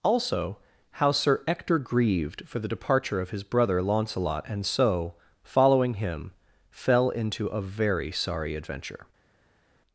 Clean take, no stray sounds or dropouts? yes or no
yes